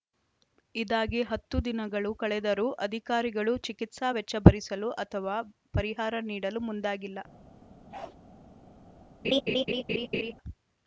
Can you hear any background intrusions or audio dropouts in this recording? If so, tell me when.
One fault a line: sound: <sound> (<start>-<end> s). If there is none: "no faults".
sound: bark (7.9-8.2 s)
sound: laugh (9.2-10.3 s)